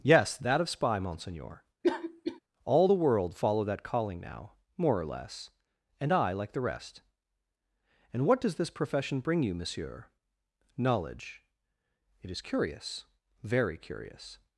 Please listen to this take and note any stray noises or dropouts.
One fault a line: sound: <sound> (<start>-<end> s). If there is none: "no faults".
sound: cough (1.8-2.4 s)